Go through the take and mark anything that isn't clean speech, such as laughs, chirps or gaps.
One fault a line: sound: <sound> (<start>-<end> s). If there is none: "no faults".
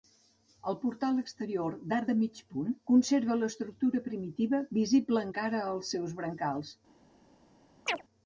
sound: chirp (7.9-8.0 s)